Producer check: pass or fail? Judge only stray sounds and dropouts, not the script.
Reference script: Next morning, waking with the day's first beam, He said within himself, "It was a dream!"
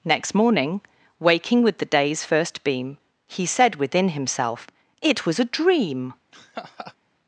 fail